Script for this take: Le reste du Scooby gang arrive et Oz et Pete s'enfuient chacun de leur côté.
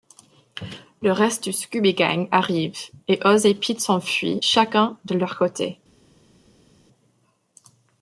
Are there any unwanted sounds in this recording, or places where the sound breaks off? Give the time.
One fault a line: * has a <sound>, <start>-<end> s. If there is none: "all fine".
all fine